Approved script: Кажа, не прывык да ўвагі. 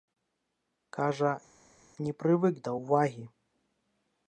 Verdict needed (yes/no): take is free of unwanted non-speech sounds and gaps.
yes